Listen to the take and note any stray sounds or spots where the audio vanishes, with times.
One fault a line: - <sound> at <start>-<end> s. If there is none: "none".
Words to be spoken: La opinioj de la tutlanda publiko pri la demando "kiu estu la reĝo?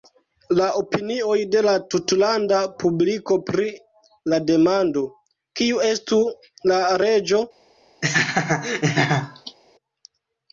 - laugh at 8.0-9.6 s